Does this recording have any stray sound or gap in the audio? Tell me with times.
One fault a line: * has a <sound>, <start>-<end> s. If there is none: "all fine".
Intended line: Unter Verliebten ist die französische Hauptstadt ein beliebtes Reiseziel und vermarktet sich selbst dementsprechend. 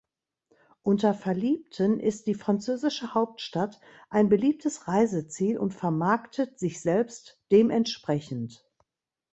all fine